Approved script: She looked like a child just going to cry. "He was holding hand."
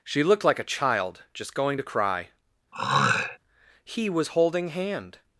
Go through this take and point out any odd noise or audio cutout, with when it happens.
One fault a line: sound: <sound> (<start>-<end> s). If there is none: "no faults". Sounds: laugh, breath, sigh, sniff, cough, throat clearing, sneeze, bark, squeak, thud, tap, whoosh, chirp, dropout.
sound: throat clearing (2.7-3.4 s)